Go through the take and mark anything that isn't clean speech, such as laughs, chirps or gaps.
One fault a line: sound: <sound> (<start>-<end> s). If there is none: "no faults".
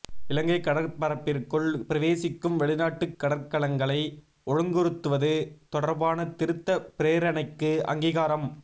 no faults